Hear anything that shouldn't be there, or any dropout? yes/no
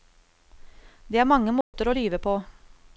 yes